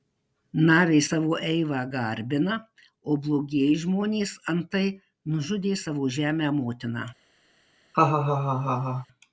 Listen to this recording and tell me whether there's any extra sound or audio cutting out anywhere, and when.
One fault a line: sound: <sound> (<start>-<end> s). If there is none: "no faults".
sound: laugh (7.9-9.1 s)